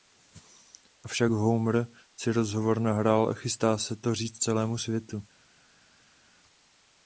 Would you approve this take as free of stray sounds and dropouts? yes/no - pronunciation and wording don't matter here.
yes